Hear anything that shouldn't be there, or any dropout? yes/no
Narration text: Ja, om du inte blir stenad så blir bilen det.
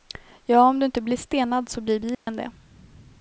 yes